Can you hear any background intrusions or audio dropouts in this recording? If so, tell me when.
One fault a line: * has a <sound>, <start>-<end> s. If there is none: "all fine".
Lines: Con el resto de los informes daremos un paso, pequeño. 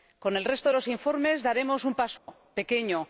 * has a dropout, 2.2-2.3 s